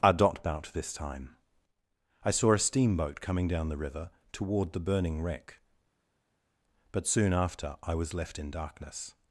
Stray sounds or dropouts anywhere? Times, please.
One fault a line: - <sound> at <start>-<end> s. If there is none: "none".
none